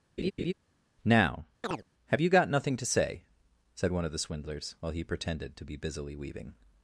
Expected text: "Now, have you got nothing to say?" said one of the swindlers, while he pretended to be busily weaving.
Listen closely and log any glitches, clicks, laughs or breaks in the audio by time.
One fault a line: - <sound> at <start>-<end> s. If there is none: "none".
- laugh at 0.2-0.5 s
- chirp at 1.6-1.8 s